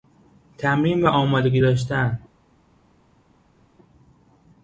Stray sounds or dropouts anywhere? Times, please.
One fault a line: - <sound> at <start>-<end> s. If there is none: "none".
none